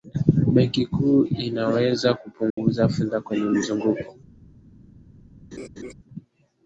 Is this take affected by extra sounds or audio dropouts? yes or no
yes